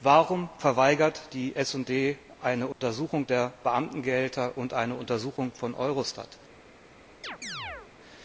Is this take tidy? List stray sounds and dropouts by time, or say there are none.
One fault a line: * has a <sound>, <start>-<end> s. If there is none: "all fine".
* has a dropout, 2.7-2.8 s
* has a chirp, 7.2-7.9 s